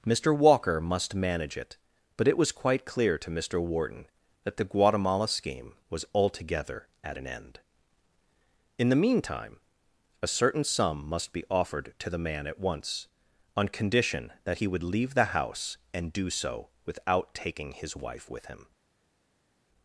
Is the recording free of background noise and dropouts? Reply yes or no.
yes